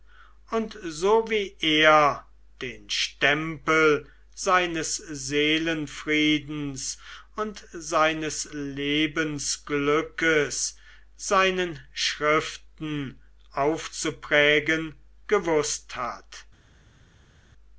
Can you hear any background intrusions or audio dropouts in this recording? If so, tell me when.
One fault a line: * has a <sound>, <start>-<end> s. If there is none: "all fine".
all fine